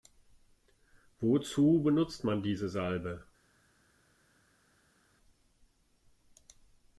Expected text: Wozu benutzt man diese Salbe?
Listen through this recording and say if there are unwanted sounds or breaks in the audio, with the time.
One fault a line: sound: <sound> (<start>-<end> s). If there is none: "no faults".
no faults